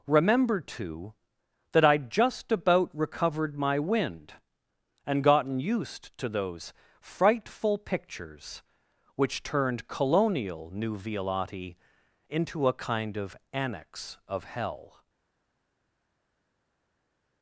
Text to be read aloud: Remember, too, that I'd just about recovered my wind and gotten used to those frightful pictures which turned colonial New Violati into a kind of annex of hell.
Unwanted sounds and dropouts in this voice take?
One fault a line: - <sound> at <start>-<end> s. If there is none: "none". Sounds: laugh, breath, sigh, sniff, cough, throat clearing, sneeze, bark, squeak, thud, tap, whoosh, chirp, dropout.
none